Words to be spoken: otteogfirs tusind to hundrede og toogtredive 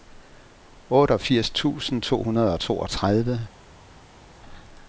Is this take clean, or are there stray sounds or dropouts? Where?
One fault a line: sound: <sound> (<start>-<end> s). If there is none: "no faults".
no faults